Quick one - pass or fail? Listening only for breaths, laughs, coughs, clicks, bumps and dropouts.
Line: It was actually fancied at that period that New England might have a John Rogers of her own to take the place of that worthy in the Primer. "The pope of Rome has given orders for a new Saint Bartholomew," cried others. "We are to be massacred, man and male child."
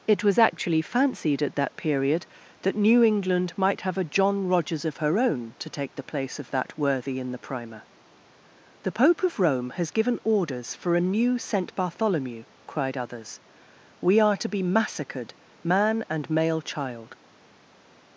pass